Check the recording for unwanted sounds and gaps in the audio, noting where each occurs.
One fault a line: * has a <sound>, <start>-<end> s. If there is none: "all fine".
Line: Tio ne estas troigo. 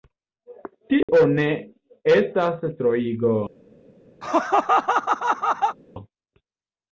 * has a dropout, 1.0-1.1 s
* has a laugh, 4.2-5.8 s